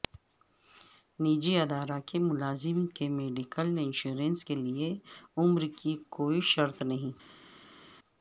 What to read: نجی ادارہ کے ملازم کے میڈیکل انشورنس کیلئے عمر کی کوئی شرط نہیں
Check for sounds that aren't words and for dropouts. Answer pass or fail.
pass